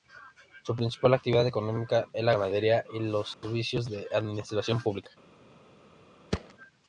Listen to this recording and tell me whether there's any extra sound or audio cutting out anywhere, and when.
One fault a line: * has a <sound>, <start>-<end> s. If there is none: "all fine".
* has a dropout, 3.3-3.4 s
* has a thud, 6.3-6.5 s